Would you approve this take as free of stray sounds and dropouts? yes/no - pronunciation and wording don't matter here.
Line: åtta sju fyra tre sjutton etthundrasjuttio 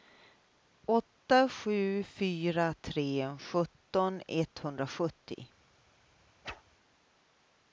no